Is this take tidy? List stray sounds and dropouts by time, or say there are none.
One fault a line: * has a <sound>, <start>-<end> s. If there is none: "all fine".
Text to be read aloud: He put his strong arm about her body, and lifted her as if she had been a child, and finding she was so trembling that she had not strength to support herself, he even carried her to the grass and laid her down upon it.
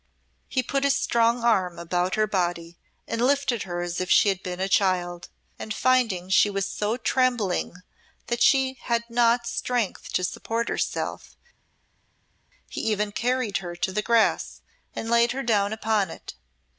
all fine